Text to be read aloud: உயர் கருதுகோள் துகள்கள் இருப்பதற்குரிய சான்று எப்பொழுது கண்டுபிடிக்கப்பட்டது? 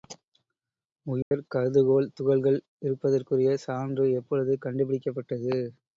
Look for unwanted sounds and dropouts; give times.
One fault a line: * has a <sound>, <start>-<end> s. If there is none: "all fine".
* has a dropout, 1.2-1.3 s